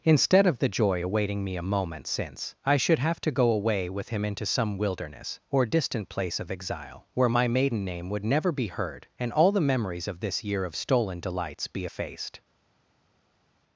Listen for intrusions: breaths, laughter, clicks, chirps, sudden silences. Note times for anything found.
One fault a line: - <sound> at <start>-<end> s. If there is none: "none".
none